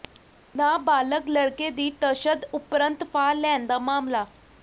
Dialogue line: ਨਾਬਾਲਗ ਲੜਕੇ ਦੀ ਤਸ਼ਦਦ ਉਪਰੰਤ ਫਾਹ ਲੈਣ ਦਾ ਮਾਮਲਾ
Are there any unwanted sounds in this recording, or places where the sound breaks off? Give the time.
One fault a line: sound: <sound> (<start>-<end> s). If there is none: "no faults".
no faults